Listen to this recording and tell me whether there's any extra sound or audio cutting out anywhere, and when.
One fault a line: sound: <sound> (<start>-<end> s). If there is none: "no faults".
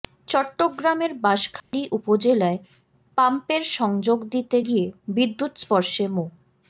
sound: dropout (1.6-1.7 s)